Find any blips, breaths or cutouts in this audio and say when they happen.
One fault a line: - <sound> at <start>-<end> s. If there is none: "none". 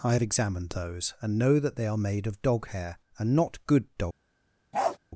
- bark at 4.7-5.0 s